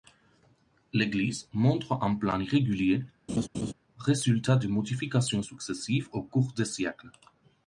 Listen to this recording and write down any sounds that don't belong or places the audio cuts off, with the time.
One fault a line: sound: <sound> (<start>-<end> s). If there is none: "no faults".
sound: laugh (3.3-3.7 s)